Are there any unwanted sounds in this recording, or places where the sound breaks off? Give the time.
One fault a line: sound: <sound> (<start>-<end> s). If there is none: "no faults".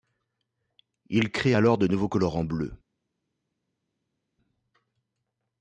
no faults